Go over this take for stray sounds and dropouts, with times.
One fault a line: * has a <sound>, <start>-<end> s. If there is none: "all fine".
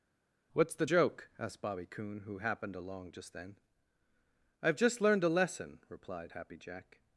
all fine